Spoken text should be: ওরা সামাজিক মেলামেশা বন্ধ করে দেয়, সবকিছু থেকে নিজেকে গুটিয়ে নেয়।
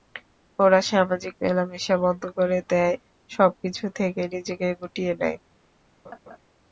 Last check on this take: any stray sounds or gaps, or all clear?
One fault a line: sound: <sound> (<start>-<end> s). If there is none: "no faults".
sound: laugh (6.0-6.4 s)